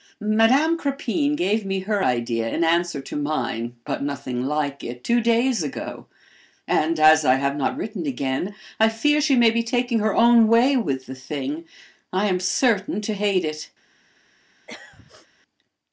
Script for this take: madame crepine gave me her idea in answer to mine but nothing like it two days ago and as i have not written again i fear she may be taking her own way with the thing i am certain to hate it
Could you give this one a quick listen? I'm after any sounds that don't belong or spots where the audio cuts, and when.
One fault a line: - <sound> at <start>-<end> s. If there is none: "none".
- throat clearing at 14.7-15.3 s